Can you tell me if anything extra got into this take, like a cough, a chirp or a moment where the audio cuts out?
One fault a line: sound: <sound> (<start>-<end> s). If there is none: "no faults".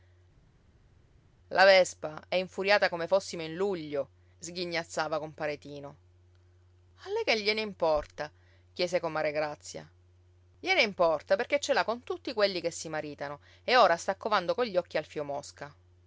no faults